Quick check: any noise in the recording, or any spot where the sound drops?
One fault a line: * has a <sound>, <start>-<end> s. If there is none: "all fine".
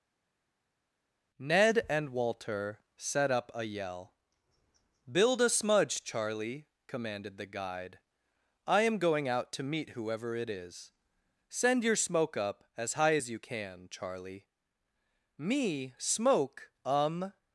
all fine